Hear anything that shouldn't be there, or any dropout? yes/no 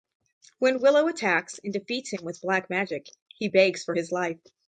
no